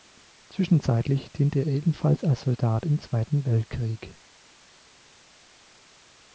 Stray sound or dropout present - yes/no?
no